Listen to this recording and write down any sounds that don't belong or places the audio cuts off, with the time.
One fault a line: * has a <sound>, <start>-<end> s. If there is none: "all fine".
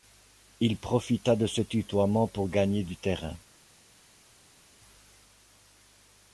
all fine